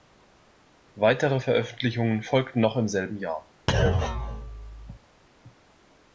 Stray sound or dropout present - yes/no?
yes